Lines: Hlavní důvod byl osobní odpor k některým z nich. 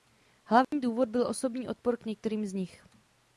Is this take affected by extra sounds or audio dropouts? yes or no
yes